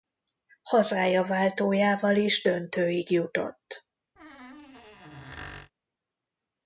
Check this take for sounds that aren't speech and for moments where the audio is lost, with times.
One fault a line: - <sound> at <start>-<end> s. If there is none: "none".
- squeak at 4.2-5.7 s